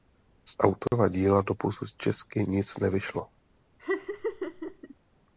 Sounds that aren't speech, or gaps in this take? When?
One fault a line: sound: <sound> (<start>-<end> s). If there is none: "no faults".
sound: dropout (0.9-0.9 s)
sound: laugh (3.8-4.9 s)